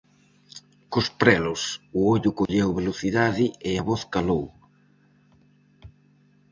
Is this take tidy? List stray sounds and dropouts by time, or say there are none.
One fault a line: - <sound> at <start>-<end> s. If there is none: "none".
- dropout at 2.5-2.5 s